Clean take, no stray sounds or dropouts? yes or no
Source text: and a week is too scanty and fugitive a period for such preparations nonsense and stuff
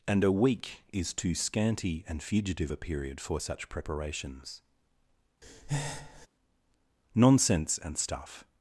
no